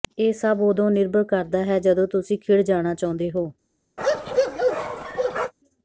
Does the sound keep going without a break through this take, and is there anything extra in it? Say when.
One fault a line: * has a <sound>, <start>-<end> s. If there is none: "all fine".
* has a bark, 4.0-5.5 s